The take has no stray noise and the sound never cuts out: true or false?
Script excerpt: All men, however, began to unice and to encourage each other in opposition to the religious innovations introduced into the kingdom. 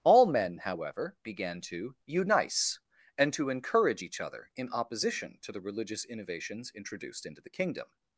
true